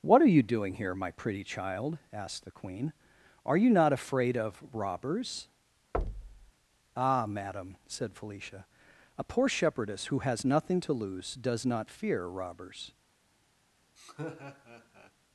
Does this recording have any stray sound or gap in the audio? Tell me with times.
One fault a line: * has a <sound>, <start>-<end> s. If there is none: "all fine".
* has a thud, 5.9-6.5 s
* has a laugh, 14.0-15.1 s